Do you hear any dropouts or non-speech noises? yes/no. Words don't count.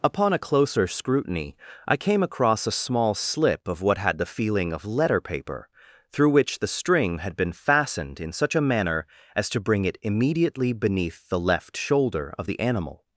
no